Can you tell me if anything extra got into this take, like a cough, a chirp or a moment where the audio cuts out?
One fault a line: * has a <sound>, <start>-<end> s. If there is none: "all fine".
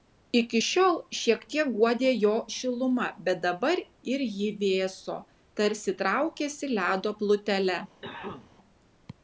* has a cough, 8.0-8.6 s